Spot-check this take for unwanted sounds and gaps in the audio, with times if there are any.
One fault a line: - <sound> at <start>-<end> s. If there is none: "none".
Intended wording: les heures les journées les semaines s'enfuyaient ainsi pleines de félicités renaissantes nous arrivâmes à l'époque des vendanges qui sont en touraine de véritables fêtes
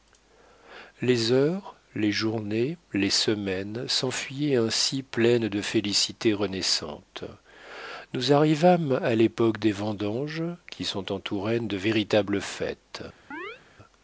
- chirp at 13.3-13.6 s